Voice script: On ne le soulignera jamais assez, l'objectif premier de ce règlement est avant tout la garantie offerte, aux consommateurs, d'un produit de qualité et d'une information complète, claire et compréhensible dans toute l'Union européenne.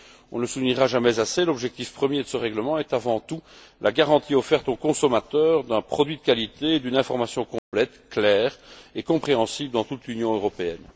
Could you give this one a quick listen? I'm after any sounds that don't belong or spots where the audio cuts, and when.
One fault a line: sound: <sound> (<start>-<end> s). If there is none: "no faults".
sound: dropout (7.6-7.7 s)